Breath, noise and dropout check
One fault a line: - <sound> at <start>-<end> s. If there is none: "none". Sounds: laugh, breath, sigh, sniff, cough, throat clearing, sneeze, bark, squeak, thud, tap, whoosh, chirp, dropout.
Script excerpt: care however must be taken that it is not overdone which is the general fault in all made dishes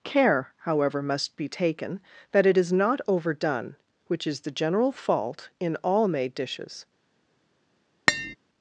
- tap at 8.1-8.4 s